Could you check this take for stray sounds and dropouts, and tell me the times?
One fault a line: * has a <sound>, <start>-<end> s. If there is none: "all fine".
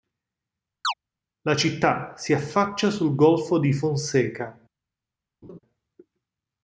* has a chirp, 0.8-0.9 s
* has a laugh, 5.4-5.6 s